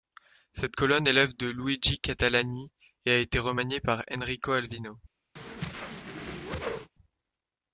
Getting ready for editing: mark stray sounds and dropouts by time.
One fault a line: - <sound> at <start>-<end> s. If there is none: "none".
- whoosh at 5.4-6.9 s